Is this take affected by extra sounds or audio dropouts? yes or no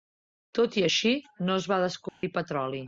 yes